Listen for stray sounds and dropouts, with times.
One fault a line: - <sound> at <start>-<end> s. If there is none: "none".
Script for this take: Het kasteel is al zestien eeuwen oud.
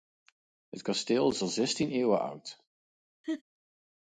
- laugh at 3.2-3.4 s